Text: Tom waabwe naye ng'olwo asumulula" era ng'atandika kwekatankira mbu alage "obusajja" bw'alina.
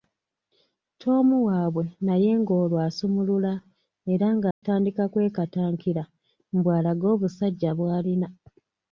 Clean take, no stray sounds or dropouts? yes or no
no